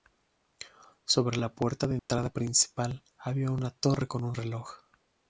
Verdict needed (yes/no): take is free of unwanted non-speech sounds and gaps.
no